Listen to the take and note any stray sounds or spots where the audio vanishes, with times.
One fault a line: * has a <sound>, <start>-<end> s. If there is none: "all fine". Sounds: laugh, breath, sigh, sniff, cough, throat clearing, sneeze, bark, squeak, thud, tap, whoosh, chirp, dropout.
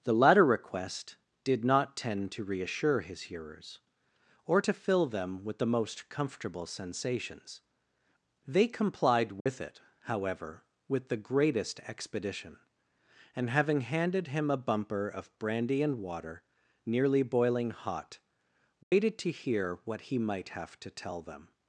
* has a dropout, 9.4-9.5 s
* has a dropout, 18.8-18.9 s